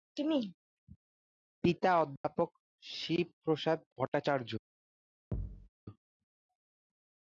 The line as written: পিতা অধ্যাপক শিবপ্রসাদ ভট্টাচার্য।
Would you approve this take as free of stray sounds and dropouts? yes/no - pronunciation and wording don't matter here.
no